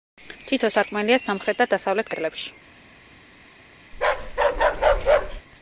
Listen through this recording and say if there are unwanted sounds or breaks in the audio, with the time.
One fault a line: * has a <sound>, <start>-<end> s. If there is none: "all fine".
* has a bark, 3.9-5.4 s